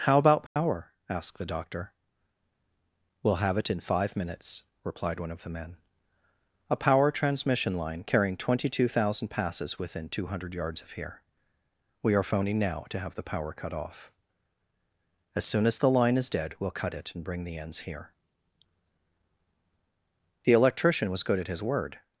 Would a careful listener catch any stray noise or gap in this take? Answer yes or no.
yes